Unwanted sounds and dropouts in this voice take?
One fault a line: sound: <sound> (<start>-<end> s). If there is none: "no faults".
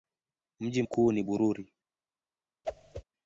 sound: whoosh (2.6-3.0 s)